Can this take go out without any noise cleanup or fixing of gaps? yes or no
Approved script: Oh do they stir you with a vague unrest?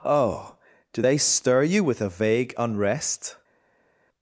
yes